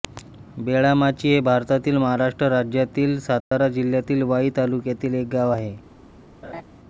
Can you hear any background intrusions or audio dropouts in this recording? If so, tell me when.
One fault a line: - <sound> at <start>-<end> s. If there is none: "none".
- dropout at 3.4-3.5 s
- laugh at 6.4-6.6 s